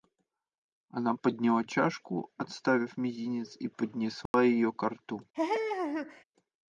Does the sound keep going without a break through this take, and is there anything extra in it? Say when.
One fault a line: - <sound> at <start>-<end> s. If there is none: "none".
- dropout at 4.3-4.3 s
- laugh at 5.3-6.2 s